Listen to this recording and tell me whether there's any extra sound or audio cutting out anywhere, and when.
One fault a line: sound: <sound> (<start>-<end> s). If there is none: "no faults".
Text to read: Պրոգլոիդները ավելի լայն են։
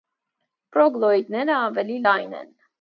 no faults